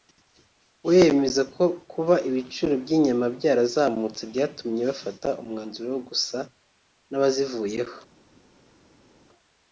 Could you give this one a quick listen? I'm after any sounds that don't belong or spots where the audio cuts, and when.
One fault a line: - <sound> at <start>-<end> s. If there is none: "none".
none